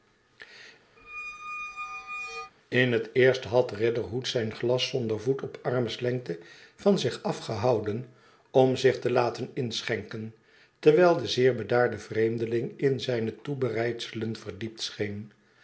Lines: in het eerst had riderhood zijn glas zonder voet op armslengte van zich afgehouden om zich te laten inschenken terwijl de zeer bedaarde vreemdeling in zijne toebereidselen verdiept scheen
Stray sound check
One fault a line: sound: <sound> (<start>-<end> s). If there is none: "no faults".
sound: squeak (1.0-2.5 s)